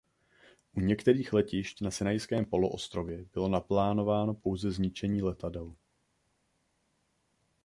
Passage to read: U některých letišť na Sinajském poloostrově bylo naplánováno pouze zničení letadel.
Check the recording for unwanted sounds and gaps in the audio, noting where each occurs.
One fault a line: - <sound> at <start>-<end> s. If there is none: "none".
none